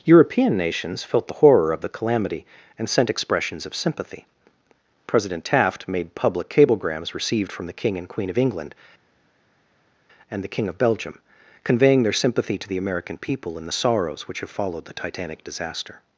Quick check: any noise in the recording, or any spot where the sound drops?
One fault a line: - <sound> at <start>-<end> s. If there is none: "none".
none